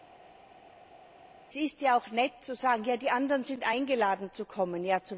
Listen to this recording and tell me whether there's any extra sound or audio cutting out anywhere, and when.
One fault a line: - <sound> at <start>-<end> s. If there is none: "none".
none